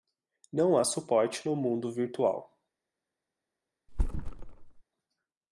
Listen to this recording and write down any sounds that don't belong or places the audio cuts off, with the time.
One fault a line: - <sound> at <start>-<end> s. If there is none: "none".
- thud at 3.9-4.8 s